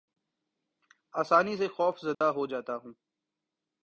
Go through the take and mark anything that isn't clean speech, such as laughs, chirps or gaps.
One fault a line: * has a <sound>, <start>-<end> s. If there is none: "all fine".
* has a dropout, 2.1-2.2 s